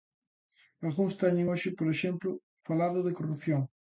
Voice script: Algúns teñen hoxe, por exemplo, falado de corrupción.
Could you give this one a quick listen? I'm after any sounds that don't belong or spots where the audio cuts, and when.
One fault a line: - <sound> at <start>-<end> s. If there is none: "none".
none